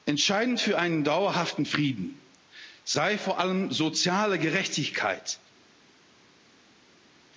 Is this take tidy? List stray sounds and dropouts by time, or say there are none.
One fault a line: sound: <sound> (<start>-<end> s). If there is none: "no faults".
no faults